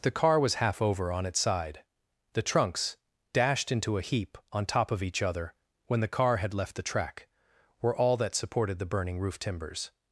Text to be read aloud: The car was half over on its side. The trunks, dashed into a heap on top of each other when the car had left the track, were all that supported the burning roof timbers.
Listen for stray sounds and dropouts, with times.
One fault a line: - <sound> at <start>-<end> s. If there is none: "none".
none